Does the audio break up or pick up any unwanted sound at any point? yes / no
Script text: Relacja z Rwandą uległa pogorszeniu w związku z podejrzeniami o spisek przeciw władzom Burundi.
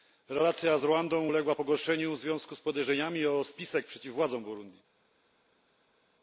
no